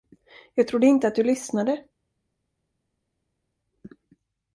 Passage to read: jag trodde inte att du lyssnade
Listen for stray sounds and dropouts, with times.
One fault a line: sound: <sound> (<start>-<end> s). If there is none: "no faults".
no faults